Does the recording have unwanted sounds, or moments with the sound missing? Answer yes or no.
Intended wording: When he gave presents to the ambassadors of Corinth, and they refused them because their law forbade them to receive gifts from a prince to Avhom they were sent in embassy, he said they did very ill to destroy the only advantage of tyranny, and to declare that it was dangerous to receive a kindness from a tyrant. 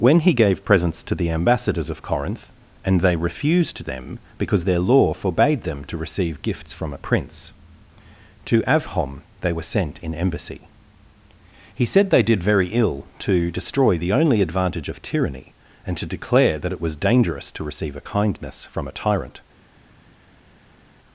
no